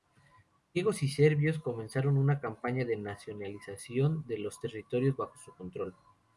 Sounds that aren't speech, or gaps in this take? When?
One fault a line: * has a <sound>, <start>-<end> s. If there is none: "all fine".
all fine